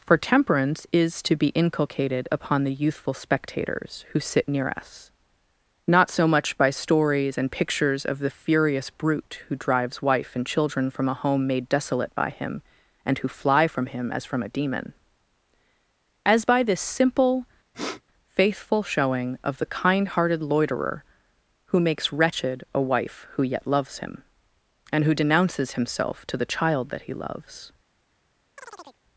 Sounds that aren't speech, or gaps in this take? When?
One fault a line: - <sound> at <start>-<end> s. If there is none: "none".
- sniff at 17.7-18.0 s
- chirp at 28.6-29.0 s